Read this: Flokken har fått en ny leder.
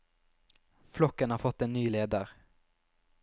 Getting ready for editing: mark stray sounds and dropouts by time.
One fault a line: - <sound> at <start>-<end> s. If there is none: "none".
none